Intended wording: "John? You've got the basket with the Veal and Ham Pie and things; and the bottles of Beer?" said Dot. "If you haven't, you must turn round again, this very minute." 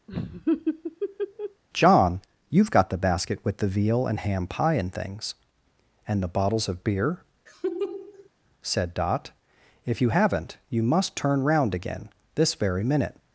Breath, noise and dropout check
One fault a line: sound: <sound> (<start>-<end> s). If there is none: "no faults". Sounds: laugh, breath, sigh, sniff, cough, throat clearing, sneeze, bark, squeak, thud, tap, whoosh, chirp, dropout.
sound: laugh (0.1-1.6 s)
sound: laugh (7.5-8.3 s)